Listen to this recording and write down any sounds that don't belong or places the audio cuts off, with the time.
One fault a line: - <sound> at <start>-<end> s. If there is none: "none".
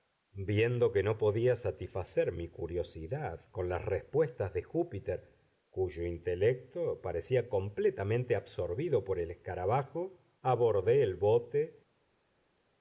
none